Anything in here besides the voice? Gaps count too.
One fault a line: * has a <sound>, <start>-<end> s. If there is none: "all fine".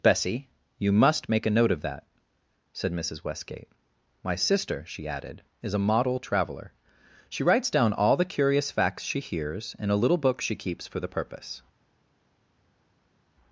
all fine